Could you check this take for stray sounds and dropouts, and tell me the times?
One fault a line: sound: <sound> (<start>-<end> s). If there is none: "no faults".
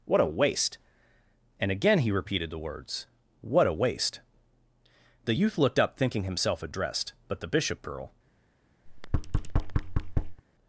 sound: thud (8.9-10.4 s)